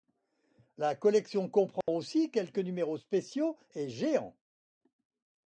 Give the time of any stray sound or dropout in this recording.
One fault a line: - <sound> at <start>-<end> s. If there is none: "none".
- dropout at 1.8-1.9 s